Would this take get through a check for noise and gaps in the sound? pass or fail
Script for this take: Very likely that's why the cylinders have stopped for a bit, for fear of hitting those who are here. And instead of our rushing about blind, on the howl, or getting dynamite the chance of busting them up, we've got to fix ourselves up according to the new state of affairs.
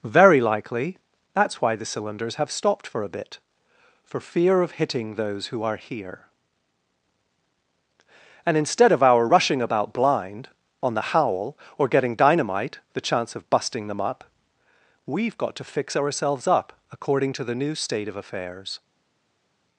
pass